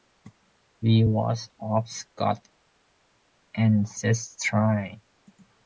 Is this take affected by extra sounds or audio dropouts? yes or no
no